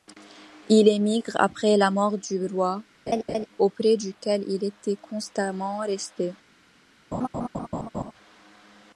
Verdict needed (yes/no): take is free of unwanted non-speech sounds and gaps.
no